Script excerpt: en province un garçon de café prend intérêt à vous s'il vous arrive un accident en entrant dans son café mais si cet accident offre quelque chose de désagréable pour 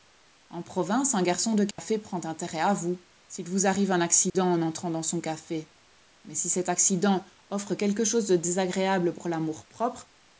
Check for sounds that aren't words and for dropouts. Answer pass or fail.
fail